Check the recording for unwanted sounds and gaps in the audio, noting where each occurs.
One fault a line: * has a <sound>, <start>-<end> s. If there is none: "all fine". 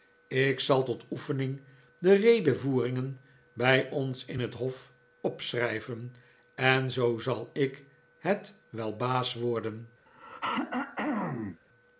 * has a throat clearing, 10.1-11.6 s